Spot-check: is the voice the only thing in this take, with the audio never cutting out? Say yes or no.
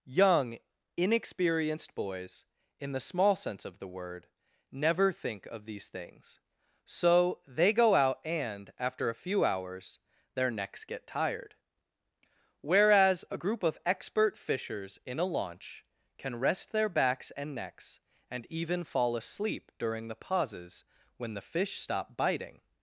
yes